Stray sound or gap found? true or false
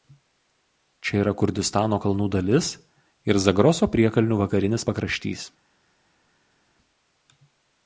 false